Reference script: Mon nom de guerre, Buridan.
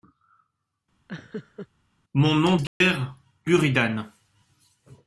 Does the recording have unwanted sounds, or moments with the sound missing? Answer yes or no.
yes